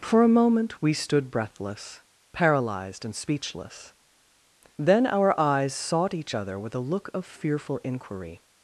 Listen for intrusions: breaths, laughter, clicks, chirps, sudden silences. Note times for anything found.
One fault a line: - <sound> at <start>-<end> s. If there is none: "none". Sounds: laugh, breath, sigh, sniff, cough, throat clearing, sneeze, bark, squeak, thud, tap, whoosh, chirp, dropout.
none